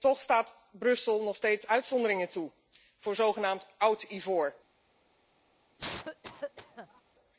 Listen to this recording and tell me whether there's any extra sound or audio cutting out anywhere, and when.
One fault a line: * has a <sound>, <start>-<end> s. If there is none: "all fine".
* has a cough, 5.8-7.0 s